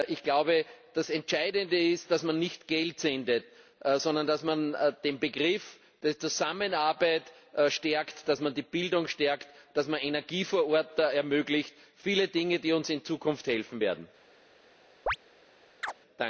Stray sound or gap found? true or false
true